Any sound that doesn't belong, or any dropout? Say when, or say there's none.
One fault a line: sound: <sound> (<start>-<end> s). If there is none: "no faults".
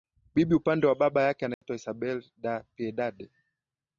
sound: dropout (1.5-1.6 s)